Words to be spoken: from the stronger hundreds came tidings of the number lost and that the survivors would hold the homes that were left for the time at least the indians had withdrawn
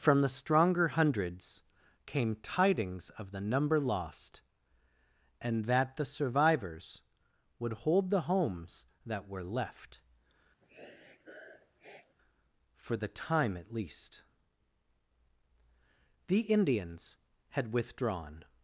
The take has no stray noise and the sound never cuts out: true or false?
false